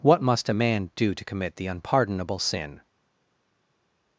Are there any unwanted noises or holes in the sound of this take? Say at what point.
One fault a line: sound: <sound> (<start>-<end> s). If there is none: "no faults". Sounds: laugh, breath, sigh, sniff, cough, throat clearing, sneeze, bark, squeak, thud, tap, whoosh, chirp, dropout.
no faults